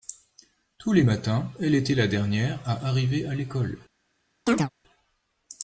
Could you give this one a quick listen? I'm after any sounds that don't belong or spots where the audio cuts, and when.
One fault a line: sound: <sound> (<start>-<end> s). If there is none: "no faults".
sound: chirp (4.5-4.7 s)